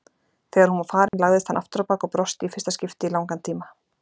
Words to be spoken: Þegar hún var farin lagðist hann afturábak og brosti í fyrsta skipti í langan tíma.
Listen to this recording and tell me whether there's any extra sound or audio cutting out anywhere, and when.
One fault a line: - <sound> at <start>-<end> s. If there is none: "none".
- dropout at 1.1-1.1 s